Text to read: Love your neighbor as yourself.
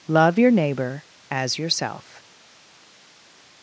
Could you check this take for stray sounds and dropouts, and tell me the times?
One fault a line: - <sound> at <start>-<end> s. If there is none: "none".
none